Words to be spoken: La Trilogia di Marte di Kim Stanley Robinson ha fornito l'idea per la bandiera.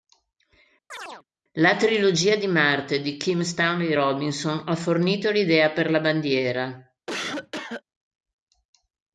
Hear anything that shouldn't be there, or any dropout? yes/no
yes